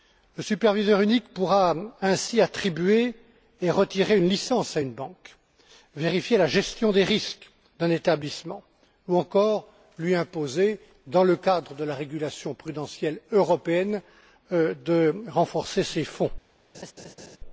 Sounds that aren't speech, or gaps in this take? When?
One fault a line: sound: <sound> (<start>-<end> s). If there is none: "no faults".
sound: laugh (16.7-17.4 s)